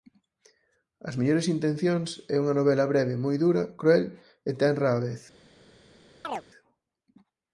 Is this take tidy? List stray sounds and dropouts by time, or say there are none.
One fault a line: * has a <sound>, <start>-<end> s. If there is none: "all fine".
* has a chirp, 6.2-6.4 s